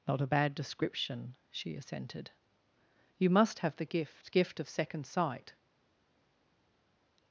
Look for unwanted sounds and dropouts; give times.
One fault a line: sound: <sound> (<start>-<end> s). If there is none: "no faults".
no faults